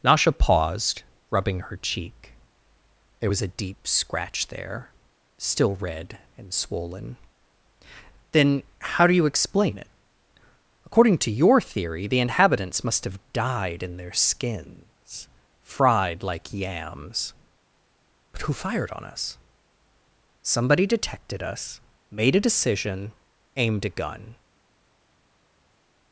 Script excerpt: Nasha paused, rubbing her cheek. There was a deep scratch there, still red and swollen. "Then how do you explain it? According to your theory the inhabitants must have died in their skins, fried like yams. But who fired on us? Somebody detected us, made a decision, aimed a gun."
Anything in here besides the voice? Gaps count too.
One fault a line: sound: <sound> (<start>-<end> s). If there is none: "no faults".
no faults